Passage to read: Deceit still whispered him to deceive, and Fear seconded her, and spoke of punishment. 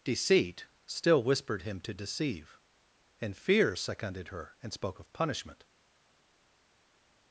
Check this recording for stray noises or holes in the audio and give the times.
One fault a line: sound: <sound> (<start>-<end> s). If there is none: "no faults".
no faults